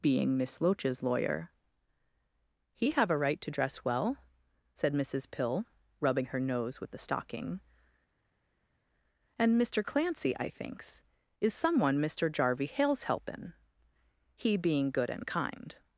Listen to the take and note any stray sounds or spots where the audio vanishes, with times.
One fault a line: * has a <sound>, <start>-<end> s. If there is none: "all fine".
all fine